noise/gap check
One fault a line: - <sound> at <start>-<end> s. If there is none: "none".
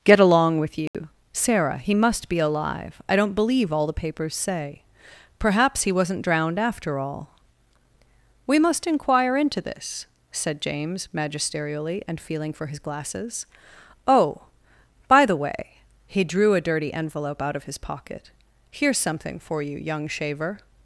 - dropout at 0.9-0.9 s